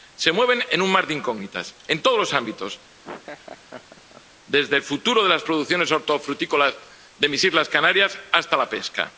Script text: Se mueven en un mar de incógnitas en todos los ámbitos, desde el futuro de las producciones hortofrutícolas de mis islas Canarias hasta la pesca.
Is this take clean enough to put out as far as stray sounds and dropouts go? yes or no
no